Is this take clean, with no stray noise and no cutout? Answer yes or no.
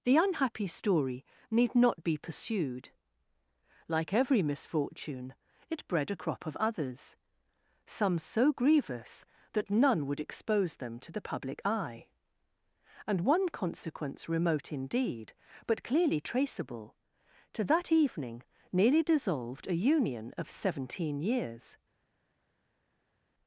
yes